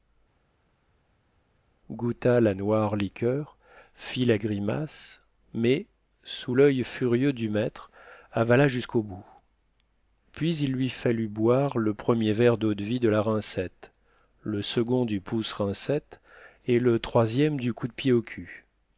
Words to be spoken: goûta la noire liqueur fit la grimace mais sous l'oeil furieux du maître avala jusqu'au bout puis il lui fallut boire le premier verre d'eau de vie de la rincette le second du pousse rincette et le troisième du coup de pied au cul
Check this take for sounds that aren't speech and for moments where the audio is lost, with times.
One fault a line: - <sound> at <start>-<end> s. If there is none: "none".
none